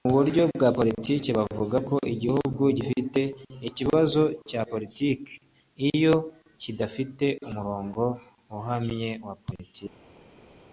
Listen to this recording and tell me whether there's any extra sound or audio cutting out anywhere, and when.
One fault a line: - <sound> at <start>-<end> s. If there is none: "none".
none